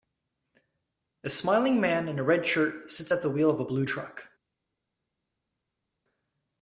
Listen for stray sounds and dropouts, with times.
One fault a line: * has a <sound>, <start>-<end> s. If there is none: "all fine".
all fine